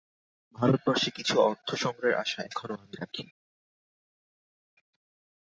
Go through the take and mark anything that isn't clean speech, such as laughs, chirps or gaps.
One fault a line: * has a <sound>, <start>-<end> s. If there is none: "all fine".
all fine